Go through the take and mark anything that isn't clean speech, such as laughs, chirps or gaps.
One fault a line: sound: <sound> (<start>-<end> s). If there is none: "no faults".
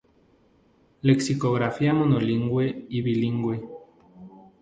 no faults